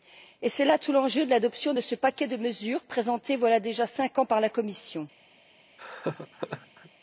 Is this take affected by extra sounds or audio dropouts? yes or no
yes